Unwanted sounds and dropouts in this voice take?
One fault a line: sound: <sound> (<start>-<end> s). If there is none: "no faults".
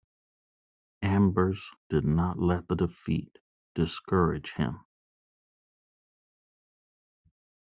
no faults